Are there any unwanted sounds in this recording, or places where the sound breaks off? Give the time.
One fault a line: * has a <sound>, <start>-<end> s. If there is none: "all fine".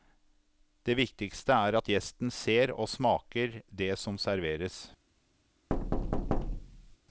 * has a thud, 5.7-7.0 s